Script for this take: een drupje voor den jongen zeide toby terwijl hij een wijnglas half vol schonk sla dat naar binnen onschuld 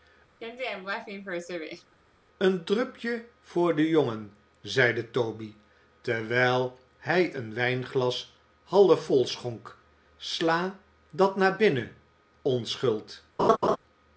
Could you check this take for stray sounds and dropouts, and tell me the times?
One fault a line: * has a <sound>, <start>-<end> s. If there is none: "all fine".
* has a laugh, 0.4-2.0 s
* has a laugh, 13.4-13.8 s